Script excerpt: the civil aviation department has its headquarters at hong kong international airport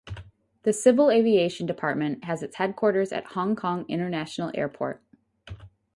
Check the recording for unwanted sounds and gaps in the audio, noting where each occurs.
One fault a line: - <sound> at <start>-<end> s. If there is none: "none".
none